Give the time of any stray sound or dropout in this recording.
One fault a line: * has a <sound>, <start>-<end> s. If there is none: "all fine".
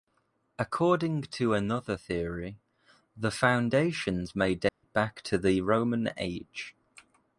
* has a dropout, 4.7-4.8 s